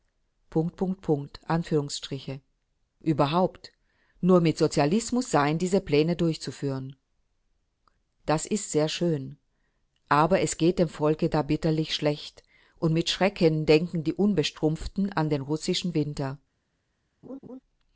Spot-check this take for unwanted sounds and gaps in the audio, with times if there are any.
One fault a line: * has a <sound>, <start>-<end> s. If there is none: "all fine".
* has a laugh, 17.2-17.6 s